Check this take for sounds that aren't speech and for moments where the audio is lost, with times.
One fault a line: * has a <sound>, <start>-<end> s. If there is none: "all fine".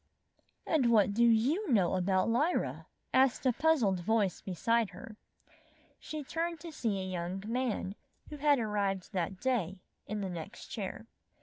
all fine